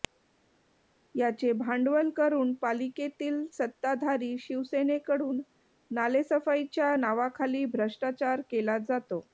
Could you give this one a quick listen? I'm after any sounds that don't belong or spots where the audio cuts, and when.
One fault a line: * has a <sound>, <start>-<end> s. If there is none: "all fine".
all fine